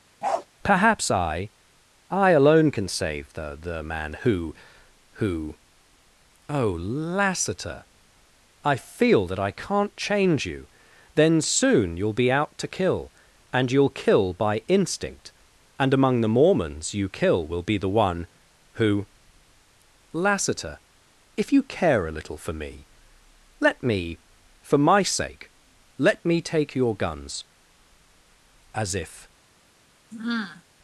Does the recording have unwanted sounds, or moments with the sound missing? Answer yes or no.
yes